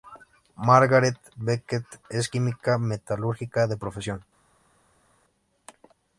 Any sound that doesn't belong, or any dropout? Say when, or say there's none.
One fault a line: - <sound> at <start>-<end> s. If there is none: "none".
none